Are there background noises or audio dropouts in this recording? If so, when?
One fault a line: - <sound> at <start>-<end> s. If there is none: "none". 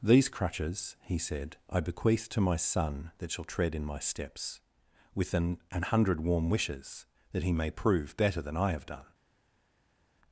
none